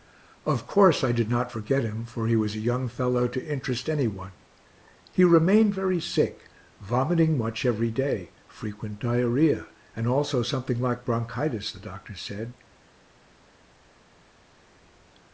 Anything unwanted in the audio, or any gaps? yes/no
no